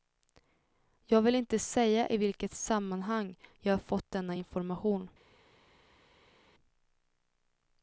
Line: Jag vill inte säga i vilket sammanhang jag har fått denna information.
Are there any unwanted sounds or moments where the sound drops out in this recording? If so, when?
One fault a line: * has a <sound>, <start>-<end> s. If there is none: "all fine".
all fine